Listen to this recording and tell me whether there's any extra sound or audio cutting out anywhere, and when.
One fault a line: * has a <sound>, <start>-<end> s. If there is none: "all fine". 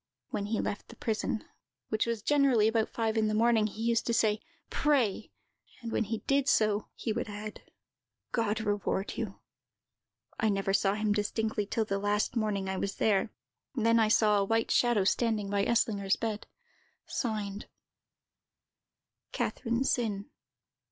all fine